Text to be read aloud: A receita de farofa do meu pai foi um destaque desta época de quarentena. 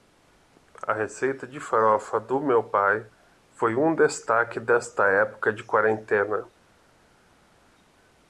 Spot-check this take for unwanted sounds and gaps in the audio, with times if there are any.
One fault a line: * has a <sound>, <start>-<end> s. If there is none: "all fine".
all fine